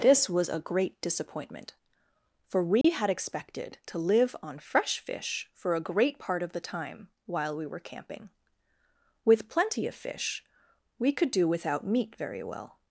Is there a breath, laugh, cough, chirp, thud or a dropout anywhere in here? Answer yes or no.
yes